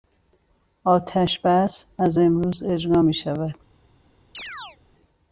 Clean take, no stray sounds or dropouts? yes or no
no